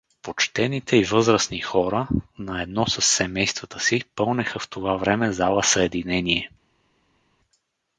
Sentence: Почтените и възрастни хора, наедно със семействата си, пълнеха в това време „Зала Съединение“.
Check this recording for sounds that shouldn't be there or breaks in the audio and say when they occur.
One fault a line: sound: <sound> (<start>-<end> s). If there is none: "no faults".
no faults